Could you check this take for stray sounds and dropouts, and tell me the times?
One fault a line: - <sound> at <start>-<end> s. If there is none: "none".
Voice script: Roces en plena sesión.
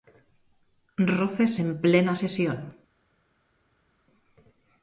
none